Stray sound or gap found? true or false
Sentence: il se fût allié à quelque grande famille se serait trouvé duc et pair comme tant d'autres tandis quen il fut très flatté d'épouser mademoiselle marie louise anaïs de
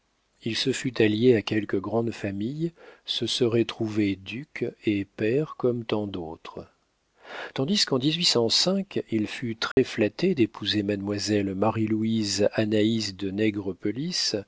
true